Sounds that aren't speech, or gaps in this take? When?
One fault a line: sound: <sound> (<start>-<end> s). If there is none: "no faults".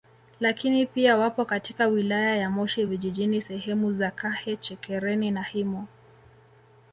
no faults